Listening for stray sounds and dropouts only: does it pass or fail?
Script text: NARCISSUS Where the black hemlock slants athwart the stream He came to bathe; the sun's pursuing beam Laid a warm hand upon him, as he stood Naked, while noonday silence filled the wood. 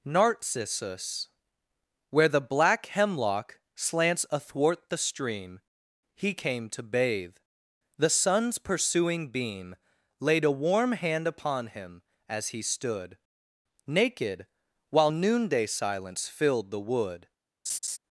fail